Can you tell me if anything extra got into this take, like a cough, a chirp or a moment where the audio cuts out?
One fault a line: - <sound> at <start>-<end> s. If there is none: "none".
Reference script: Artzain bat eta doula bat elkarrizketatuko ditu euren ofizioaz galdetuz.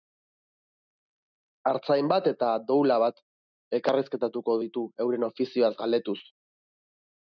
none